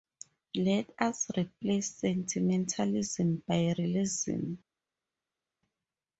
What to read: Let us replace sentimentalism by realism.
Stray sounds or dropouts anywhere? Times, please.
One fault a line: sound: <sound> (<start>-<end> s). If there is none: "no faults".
no faults